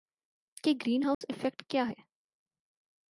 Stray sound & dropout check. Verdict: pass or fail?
fail